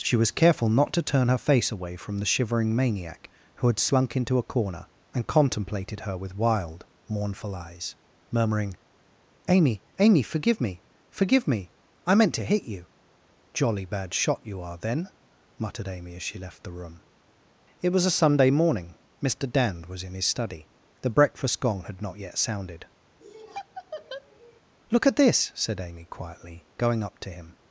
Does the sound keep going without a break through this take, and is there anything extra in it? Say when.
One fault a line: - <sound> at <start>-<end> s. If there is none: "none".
- laugh at 23.2-24.6 s